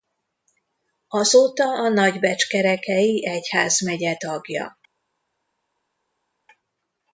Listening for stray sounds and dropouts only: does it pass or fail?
pass